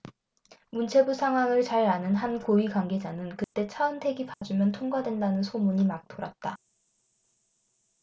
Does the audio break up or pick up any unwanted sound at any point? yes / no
yes